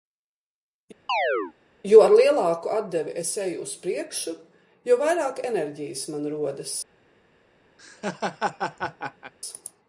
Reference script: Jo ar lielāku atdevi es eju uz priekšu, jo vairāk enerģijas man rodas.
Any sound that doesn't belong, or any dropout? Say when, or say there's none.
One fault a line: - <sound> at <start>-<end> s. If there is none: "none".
- chirp at 1.1-1.5 s
- laugh at 7.8-9.3 s